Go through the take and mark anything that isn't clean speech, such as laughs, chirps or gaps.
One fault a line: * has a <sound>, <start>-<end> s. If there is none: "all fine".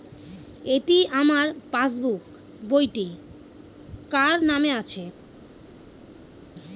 all fine